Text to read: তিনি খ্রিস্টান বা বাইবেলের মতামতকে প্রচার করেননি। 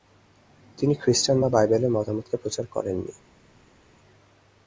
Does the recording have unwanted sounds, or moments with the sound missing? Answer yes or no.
no